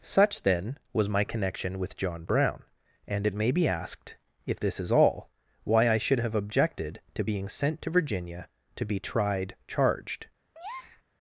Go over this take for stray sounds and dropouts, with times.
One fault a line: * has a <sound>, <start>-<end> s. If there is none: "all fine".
* has a breath, 10.5-11.0 s